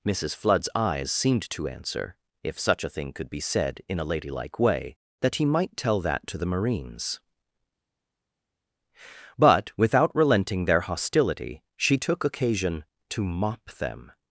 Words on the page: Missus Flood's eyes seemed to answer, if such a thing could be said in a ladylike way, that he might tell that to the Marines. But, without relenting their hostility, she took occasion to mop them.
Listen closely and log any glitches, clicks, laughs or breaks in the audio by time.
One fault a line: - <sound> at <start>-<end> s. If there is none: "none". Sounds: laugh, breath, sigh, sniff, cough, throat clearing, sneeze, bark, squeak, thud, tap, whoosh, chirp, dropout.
none